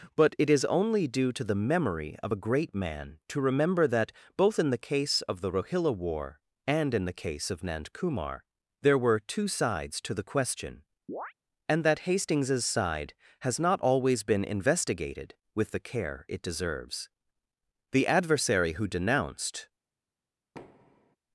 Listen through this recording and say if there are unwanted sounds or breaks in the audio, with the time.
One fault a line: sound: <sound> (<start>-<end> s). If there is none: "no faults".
sound: chirp (11.1-11.3 s)
sound: thud (20.5-21.2 s)